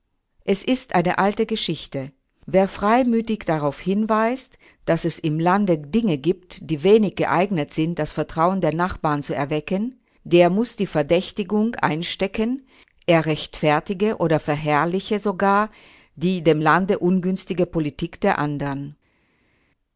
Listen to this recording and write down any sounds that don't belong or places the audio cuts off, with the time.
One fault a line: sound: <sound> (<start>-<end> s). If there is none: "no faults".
no faults